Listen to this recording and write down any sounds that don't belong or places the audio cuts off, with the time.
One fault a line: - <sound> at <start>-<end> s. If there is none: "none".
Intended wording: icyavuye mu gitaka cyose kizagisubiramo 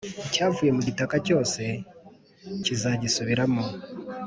none